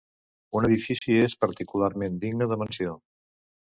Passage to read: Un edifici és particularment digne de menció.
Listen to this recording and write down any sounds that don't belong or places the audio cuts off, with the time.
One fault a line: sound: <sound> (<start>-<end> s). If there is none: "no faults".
sound: dropout (1.0-1.0 s)